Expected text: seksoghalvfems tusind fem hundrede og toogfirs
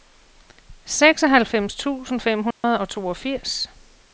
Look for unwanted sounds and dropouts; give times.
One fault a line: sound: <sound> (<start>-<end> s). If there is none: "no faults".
sound: dropout (2.5-2.6 s)